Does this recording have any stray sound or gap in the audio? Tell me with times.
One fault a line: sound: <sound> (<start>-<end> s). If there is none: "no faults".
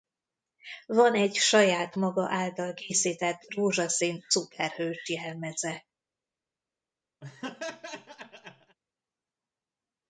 sound: laugh (7.2-8.8 s)